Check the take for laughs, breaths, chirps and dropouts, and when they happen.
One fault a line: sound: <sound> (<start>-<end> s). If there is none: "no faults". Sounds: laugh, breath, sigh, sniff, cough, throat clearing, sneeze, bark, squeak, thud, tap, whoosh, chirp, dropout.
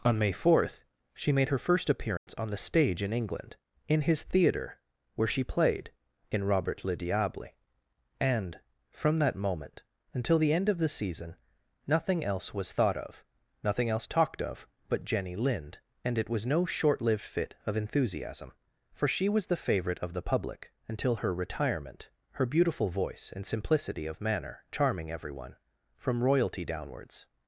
sound: dropout (2.2-2.3 s)